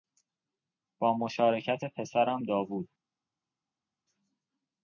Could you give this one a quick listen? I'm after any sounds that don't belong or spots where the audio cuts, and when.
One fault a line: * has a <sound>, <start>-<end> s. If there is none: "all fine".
all fine